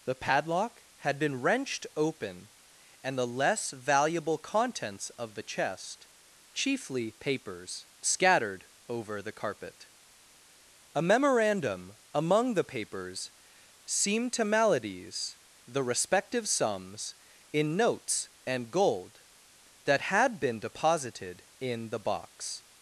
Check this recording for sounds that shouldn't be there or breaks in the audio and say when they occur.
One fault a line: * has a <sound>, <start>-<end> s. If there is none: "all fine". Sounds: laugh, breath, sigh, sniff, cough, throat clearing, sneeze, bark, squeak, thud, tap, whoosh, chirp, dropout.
all fine